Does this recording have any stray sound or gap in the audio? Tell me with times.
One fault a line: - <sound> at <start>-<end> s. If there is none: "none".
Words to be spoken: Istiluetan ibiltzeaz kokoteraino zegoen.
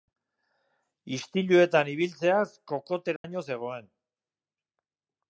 - dropout at 3.2-3.2 s